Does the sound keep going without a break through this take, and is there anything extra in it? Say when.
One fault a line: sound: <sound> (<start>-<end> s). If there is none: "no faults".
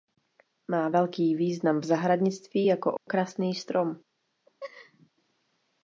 sound: dropout (3.0-3.1 s)
sound: laugh (4.5-5.1 s)